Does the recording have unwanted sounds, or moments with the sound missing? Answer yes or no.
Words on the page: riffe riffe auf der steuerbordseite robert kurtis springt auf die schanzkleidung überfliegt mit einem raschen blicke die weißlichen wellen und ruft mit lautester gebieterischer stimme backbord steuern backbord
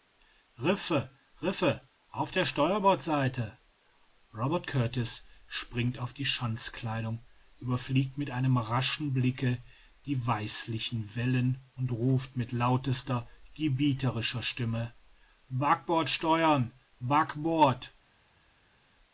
no